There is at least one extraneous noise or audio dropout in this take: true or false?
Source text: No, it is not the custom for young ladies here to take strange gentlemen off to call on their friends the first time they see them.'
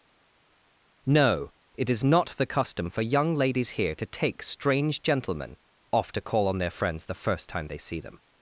false